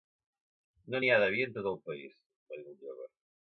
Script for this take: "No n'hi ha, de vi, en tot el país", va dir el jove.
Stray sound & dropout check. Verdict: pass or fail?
pass